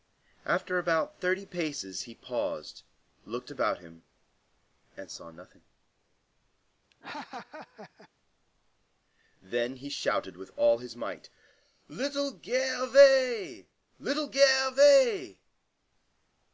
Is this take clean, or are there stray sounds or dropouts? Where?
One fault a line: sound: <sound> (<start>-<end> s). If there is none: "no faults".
sound: laugh (6.9-8.1 s)